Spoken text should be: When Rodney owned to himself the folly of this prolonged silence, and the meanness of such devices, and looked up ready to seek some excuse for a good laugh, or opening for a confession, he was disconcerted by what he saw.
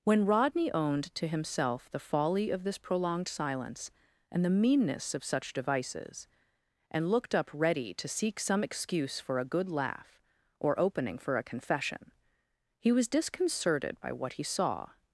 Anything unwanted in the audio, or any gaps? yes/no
no